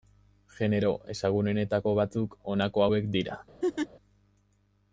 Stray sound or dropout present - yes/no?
yes